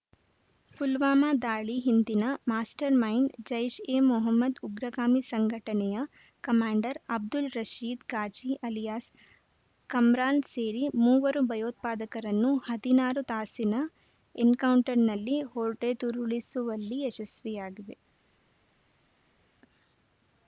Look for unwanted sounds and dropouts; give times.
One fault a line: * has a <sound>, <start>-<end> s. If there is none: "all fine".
all fine